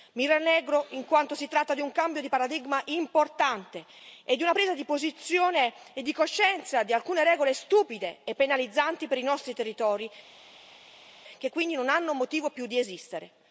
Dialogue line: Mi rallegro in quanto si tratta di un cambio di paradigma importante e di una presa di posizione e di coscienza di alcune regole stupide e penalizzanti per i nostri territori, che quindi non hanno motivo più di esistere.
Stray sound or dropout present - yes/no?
no